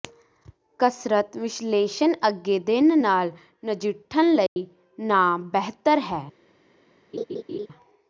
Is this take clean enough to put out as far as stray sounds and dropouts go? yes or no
no